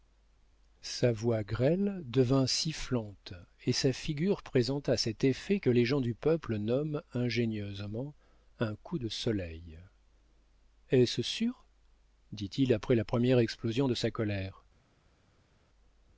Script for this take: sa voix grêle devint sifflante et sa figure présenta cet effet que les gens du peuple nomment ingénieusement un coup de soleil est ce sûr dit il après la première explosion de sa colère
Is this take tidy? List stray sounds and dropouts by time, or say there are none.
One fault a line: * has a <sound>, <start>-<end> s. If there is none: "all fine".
all fine